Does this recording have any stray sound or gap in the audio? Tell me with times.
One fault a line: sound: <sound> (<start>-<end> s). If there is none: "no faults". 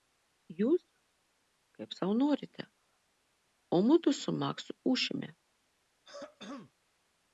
sound: throat clearing (6.0-6.7 s)